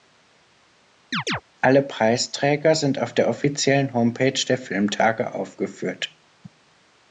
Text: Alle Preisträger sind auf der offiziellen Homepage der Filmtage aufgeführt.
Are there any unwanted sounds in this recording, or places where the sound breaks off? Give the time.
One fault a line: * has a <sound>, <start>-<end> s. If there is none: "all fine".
* has a chirp, 1.1-1.4 s